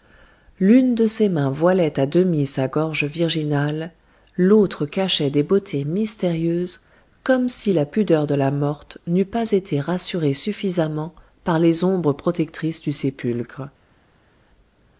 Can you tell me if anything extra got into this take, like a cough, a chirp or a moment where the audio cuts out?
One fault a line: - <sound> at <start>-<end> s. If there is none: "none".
none